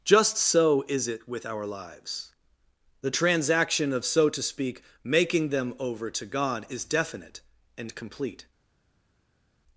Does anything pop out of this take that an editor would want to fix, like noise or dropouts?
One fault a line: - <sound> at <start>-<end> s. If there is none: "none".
none